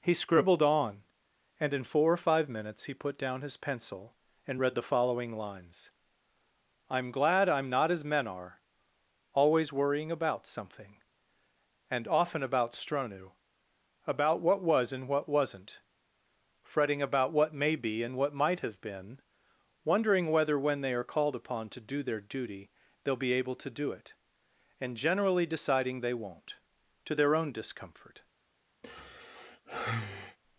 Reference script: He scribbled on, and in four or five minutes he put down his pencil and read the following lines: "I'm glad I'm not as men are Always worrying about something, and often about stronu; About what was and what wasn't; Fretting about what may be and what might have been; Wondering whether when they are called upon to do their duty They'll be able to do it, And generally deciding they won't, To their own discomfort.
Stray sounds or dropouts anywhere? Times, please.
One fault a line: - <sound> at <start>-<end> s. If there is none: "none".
- sigh at 28.8-30.4 s